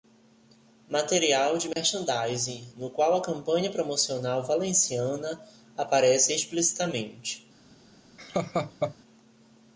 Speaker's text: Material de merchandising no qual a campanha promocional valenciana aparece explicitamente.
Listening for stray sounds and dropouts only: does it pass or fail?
fail